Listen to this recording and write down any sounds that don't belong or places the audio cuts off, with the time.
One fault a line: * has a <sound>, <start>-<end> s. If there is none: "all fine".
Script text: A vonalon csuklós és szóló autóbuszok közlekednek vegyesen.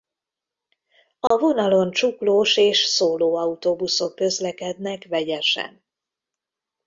* has a dropout, 1.3-1.3 s